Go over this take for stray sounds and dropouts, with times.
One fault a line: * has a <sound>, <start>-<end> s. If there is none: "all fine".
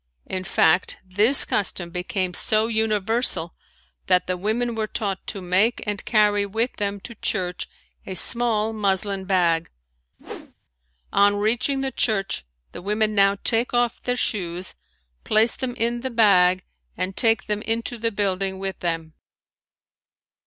* has a whoosh, 10.2-10.5 s